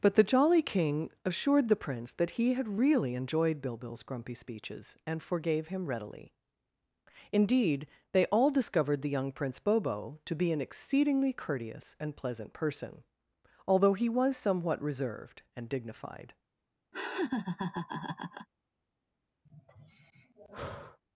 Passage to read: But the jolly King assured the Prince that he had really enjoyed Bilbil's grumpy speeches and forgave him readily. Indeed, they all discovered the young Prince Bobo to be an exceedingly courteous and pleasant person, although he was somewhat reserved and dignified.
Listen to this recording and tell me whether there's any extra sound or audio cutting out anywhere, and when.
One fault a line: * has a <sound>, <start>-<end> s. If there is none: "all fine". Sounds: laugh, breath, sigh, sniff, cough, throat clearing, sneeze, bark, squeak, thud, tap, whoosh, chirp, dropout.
* has a laugh, 16.9-18.5 s
* has a sigh, 19.4-21.0 s